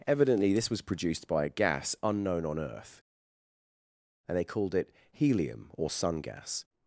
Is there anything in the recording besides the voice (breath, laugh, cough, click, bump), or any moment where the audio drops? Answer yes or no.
no